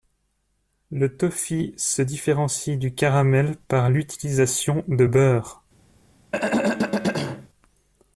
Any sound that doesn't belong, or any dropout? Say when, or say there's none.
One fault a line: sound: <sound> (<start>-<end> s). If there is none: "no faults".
sound: throat clearing (6.3-7.5 s)